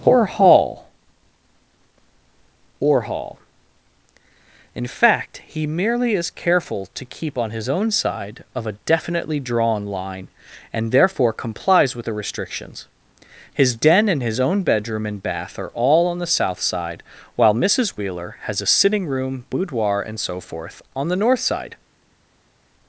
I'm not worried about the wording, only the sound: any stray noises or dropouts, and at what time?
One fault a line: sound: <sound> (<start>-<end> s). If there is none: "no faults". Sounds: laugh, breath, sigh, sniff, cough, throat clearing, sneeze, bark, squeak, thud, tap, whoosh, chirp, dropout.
no faults